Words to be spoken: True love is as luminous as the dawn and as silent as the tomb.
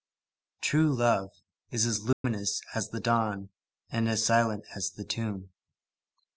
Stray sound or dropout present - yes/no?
yes